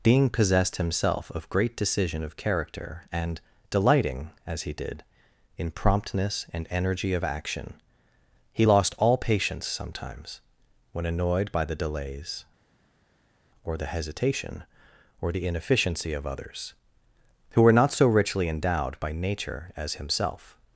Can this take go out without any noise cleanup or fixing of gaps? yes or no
yes